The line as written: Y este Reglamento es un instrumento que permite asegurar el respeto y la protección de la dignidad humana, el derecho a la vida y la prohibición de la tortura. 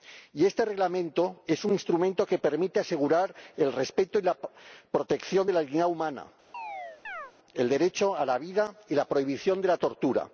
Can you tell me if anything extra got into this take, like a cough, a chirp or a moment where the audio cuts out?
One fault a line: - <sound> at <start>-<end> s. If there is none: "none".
- chirp at 6.5-7.3 s